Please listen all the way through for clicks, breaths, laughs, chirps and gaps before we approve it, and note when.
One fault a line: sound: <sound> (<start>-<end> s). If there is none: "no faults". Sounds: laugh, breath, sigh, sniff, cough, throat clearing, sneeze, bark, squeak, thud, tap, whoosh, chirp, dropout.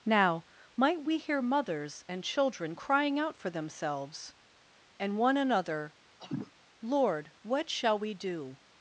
sound: cough (6.2-6.5 s)